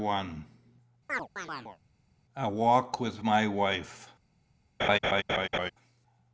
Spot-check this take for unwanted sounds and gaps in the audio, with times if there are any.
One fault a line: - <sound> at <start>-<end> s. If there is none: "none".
- chirp at 1.1-1.8 s
- laugh at 4.8-5.7 s